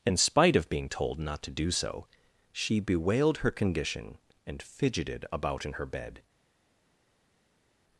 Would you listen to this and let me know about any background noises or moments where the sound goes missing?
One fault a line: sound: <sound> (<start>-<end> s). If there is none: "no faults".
no faults